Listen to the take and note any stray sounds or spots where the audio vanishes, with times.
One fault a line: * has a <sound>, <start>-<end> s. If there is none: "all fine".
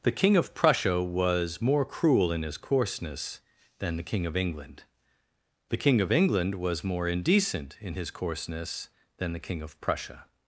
all fine